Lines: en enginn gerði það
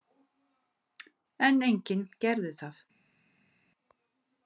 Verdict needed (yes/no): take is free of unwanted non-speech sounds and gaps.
yes